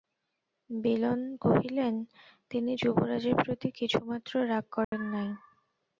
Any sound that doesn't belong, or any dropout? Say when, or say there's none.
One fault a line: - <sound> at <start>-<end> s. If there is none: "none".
- dropout at 4.8-4.9 s